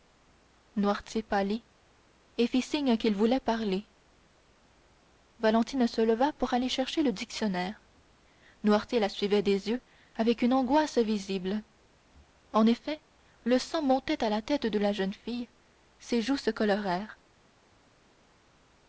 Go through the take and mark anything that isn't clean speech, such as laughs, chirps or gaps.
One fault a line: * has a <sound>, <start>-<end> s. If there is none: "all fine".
all fine